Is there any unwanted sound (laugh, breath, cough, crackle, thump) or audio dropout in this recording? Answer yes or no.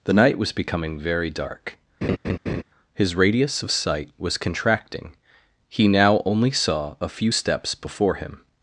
yes